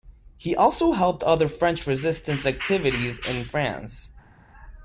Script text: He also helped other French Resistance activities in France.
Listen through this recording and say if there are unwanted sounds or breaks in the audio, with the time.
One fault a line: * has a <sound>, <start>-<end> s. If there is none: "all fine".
all fine